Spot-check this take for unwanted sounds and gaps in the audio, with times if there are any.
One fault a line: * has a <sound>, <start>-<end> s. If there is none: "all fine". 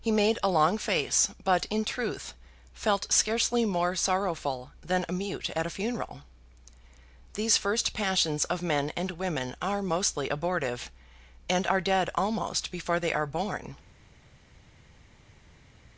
all fine